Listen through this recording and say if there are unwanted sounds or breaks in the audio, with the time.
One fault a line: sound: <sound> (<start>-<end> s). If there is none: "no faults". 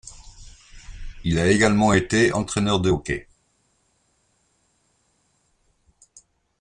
no faults